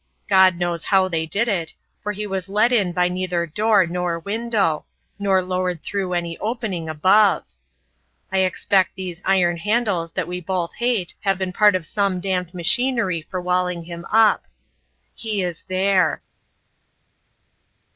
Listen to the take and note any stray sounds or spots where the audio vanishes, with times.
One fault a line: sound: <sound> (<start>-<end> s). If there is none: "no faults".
no faults